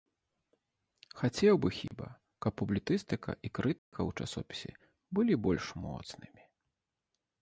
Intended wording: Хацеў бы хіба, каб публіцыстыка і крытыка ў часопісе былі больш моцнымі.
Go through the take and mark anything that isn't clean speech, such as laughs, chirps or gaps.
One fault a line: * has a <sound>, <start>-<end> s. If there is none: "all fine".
* has a dropout, 1.9-1.9 s
* has a dropout, 3.8-3.9 s